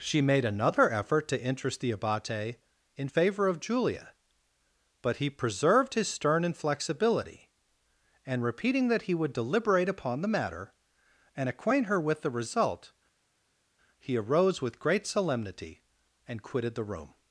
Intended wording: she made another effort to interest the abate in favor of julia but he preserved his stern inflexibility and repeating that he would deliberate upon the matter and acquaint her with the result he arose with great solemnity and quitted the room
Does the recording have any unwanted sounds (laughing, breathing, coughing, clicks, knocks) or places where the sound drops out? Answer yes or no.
no